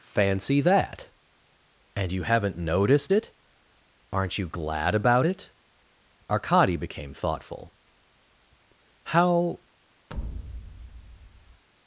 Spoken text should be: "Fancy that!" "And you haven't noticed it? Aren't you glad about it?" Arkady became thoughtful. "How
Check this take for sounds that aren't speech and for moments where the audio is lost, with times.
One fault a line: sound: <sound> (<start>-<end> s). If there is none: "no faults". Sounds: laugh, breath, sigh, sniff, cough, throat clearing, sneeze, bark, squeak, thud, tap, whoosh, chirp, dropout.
sound: thud (10.1-11.6 s)